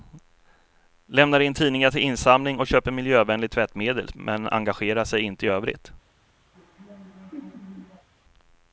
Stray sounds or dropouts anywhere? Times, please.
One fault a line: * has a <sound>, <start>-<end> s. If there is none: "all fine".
* has a laugh, 6.5-8.1 s